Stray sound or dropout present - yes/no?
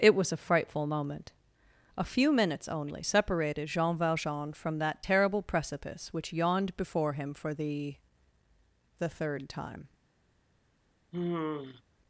yes